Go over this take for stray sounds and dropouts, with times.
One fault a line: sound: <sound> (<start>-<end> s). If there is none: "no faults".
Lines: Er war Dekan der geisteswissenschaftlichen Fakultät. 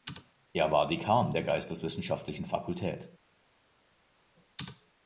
no faults